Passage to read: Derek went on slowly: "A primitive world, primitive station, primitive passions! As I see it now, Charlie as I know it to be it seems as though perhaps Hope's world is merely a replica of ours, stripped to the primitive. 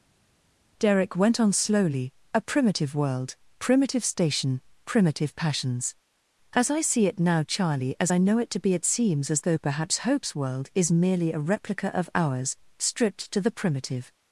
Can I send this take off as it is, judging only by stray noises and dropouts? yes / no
yes